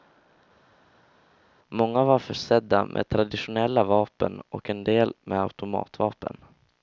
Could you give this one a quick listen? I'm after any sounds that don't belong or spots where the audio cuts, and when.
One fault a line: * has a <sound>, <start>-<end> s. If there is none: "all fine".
all fine